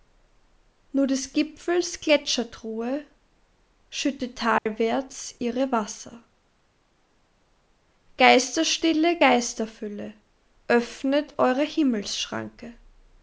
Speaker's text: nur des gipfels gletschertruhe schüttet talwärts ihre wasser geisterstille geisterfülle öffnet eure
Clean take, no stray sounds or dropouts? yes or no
no